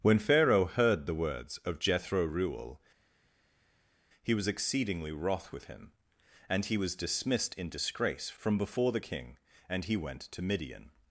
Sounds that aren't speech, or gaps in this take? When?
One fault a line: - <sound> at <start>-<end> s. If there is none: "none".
none